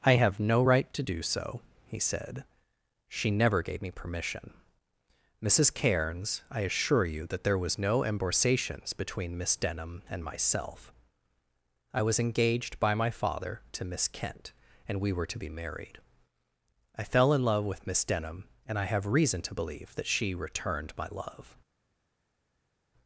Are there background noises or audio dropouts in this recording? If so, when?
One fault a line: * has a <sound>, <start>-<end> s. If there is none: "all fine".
all fine